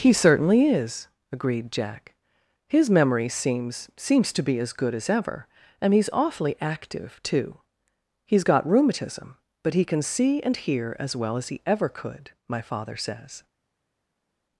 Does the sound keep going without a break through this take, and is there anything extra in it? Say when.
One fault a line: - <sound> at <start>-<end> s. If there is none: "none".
none